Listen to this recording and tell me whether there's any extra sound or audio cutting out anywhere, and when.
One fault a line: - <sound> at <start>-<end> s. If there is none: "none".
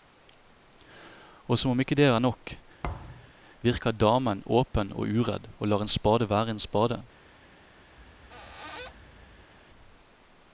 - thud at 2.8-3.3 s
- squeak at 8.0-9.5 s